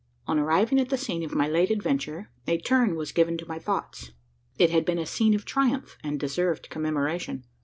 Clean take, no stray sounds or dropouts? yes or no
yes